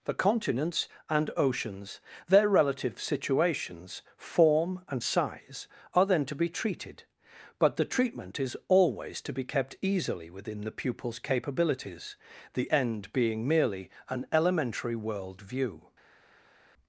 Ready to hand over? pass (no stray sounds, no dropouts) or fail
pass